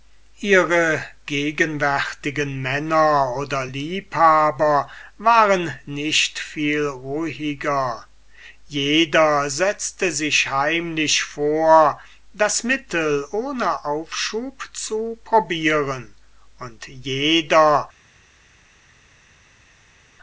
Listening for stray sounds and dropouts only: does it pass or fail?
pass